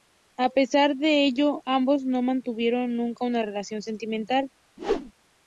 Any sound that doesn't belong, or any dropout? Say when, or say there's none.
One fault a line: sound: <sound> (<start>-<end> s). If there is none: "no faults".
sound: whoosh (4.8-5.1 s)